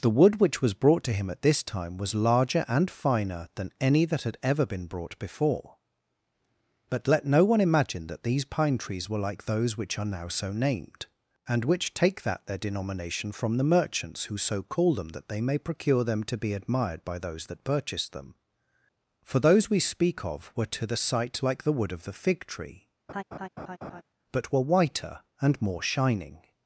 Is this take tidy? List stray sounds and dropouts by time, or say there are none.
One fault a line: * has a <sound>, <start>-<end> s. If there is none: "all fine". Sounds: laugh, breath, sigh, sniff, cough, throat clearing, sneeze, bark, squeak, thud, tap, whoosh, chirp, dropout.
* has a laugh, 23.1-24.0 s